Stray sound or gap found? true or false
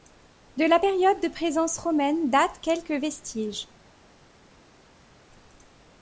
false